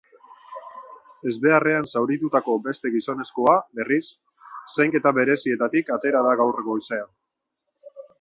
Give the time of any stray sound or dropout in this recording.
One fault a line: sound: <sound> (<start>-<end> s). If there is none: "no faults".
no faults